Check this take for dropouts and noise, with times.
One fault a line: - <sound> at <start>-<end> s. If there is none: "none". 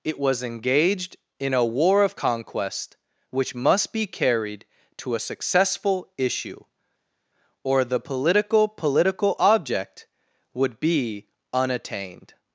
none